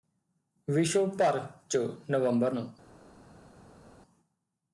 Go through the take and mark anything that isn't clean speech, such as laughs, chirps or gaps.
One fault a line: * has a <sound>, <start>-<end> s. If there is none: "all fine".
all fine